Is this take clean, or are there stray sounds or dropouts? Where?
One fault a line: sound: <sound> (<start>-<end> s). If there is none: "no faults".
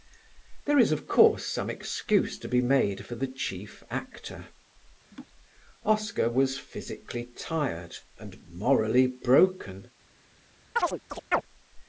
sound: laugh (5.1-5.3 s)
sound: chirp (10.8-11.4 s)